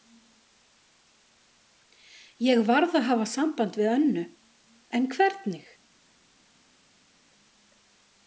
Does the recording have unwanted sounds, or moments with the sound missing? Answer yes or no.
no